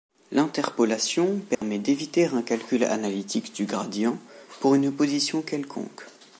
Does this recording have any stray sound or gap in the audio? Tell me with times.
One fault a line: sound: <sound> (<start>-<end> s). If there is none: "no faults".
sound: dropout (1.5-1.6 s)